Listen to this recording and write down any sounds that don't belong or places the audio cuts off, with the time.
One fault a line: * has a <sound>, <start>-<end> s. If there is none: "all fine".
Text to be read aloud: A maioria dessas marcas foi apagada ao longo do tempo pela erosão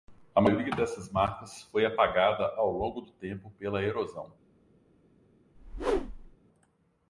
* has a whoosh, 5.5-6.4 s